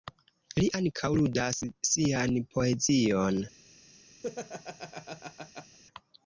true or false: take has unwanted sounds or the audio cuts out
true